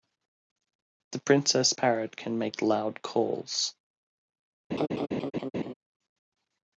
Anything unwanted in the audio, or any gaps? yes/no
yes